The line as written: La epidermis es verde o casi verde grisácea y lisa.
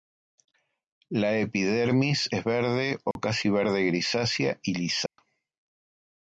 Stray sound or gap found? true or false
true